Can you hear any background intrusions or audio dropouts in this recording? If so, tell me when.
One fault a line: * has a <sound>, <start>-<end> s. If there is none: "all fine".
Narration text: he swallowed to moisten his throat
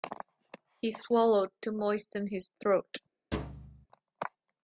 * has a thud, 3.3-3.9 s